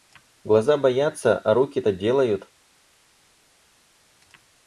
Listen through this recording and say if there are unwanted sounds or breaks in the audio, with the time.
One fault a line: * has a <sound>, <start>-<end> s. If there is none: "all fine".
all fine